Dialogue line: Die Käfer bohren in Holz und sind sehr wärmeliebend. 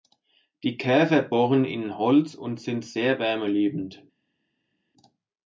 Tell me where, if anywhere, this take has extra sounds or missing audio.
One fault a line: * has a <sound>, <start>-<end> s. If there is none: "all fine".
all fine